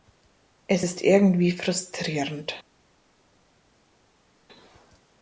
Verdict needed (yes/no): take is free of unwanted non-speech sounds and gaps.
yes